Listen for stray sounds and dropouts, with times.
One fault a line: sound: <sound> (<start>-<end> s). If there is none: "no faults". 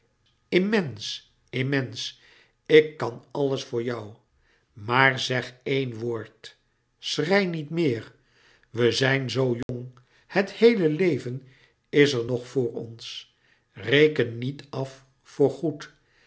sound: dropout (9.6-9.7 s)